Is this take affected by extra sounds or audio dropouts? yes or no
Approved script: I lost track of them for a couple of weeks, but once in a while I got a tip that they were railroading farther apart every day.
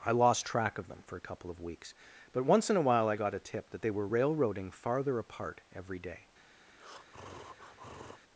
yes